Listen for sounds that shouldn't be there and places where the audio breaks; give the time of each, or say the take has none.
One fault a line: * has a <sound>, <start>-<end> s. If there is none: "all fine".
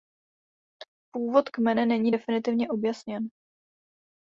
all fine